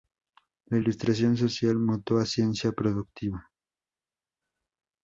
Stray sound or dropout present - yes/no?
no